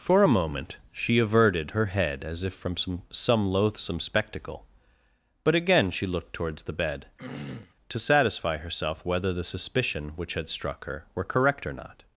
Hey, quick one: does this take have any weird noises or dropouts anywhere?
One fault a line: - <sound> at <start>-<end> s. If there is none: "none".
- throat clearing at 7.2-7.7 s